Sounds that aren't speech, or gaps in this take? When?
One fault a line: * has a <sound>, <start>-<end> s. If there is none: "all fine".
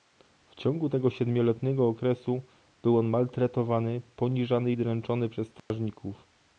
* has a dropout, 5.6-5.7 s